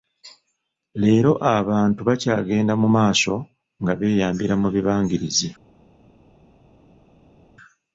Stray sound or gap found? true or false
false